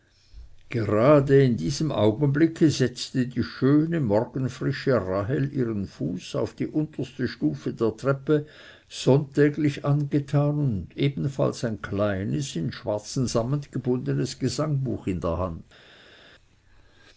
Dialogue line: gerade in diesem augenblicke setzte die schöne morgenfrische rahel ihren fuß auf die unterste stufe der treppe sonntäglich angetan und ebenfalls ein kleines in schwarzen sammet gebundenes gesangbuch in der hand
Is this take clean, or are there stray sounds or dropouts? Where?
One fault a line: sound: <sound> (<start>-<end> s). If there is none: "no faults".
no faults